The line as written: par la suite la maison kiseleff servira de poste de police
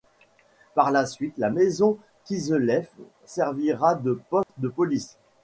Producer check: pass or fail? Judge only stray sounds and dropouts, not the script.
fail